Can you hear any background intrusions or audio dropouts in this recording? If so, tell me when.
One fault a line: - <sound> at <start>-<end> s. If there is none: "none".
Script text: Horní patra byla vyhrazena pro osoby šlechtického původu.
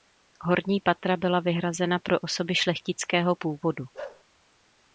- bark at 3.9-4.2 s